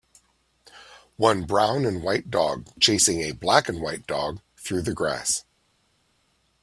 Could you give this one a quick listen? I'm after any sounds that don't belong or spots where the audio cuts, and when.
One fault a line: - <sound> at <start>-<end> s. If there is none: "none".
none